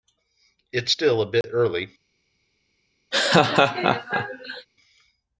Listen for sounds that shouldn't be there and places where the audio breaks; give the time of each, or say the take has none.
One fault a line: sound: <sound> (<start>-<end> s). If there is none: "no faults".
sound: dropout (1.4-1.4 s)
sound: laugh (3.1-4.7 s)